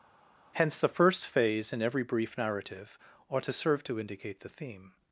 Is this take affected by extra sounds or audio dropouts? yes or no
no